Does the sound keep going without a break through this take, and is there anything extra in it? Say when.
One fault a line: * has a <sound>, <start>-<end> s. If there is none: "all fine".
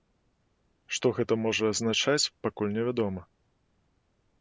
all fine